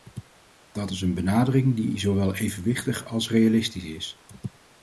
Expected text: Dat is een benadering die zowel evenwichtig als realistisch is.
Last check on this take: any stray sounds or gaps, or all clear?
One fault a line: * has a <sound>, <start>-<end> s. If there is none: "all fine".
all fine